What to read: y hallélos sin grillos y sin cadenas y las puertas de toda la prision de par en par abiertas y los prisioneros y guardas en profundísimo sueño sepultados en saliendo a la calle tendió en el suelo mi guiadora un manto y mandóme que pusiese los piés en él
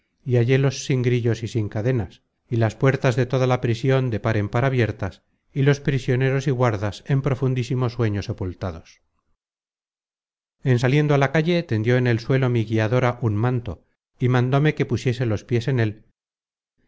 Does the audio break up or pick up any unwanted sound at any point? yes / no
no